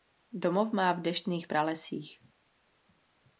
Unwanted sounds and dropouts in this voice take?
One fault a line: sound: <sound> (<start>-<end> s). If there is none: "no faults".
no faults